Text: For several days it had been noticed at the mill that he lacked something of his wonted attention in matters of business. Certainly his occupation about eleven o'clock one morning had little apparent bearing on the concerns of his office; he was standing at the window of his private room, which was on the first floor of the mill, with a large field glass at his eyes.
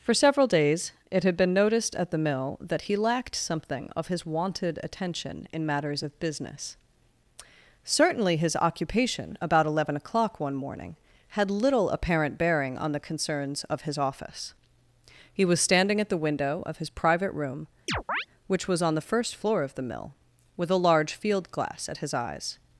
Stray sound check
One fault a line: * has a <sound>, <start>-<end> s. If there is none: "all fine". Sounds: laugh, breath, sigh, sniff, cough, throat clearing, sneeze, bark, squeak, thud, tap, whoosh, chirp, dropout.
* has a chirp, 17.9-18.3 s